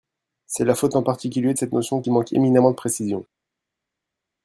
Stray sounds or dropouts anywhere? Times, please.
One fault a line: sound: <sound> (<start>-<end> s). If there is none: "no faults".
no faults